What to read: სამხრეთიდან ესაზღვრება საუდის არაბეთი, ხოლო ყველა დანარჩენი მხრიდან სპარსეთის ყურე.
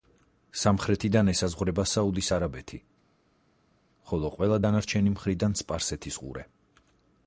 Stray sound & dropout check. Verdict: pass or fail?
pass